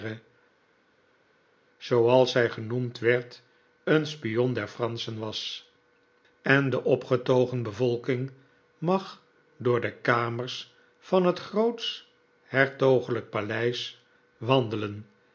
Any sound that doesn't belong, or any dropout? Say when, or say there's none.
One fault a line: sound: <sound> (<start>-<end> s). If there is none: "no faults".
no faults